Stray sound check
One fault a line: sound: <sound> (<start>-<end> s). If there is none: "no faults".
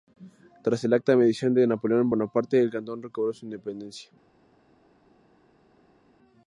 no faults